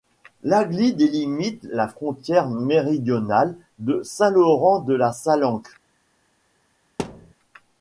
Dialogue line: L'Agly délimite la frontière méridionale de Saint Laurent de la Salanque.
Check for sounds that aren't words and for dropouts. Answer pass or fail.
fail